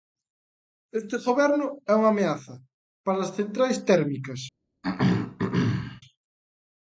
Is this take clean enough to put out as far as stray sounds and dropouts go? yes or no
no